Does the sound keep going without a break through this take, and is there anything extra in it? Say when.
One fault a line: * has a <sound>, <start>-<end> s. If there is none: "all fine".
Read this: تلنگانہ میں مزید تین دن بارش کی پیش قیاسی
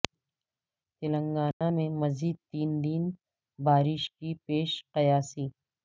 * has a dropout, 1.5-1.6 s